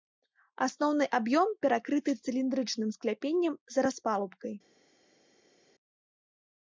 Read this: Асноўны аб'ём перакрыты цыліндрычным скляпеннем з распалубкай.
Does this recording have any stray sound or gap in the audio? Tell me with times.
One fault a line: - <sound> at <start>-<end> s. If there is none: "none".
none